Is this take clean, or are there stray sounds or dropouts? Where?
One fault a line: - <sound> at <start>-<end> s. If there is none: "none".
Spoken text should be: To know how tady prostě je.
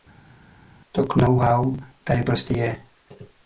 none